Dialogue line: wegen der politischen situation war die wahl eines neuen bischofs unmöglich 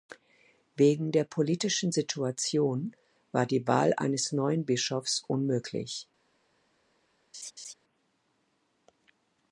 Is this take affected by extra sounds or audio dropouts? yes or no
yes